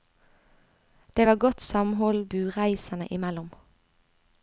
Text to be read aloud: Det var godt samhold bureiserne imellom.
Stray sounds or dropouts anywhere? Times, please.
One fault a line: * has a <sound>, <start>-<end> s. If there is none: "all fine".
all fine